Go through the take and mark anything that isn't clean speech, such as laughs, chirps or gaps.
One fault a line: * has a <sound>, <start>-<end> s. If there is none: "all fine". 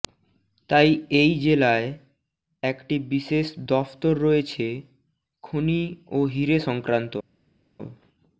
all fine